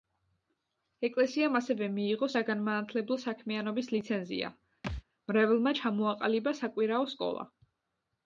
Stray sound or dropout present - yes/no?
yes